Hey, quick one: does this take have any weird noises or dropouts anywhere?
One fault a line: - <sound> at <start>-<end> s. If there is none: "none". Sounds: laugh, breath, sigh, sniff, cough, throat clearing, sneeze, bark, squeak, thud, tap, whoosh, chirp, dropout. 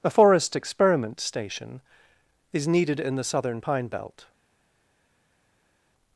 none